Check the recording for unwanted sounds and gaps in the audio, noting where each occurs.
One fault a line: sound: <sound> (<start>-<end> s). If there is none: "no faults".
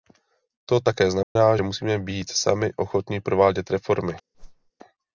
sound: dropout (1.2-1.4 s)
sound: whoosh (4.3-4.7 s)